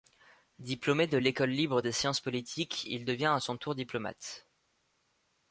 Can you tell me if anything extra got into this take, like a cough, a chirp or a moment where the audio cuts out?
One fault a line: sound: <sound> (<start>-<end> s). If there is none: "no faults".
no faults